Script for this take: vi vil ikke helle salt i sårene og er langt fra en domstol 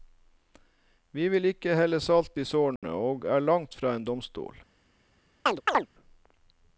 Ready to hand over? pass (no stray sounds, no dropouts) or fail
fail